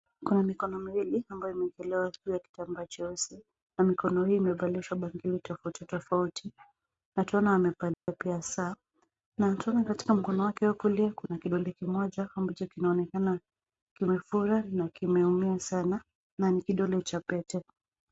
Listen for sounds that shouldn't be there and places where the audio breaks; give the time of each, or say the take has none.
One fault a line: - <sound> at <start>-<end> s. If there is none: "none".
- dropout at 7.9-8.1 s